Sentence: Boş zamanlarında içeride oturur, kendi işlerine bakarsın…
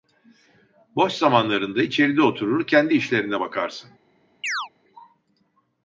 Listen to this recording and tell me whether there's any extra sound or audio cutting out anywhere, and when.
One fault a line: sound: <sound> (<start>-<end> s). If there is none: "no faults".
sound: chirp (4.4-4.7 s)